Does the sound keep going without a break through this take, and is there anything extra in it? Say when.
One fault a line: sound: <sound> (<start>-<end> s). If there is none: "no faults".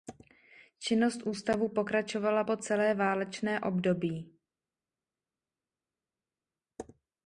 no faults